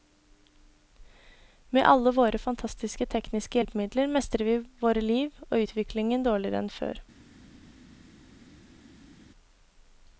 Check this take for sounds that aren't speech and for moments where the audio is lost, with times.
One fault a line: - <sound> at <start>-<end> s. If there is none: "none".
none